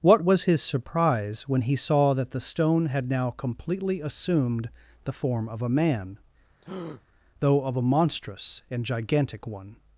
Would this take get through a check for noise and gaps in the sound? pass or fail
fail